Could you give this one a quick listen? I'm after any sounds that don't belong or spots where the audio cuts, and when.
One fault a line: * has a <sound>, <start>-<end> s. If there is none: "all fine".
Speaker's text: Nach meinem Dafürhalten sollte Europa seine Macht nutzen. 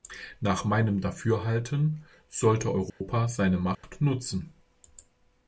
* has a dropout, 2.9-3.0 s
* has a dropout, 3.7-3.8 s